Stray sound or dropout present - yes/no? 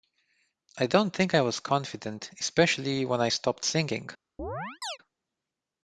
yes